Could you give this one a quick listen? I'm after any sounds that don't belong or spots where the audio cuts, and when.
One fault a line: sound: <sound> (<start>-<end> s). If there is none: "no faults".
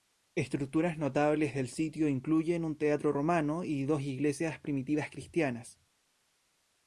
no faults